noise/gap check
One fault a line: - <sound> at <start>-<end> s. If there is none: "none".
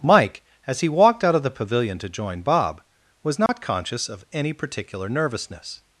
- dropout at 3.5-3.5 s